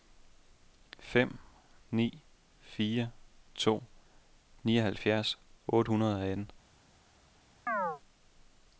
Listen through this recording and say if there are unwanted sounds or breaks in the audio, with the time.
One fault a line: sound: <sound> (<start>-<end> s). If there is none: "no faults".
sound: chirp (7.7-8.0 s)